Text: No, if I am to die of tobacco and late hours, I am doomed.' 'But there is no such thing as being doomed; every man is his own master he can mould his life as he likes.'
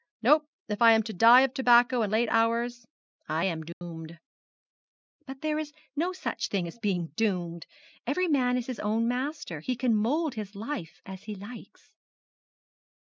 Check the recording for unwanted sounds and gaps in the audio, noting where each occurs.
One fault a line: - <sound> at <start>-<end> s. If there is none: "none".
- dropout at 3.7-3.8 s